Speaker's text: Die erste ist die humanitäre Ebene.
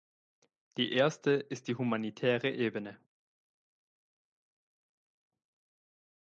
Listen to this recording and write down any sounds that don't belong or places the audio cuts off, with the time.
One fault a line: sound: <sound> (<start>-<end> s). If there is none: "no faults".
no faults